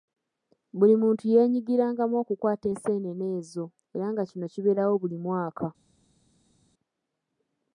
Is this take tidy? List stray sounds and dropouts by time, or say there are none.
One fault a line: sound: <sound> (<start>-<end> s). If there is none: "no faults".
no faults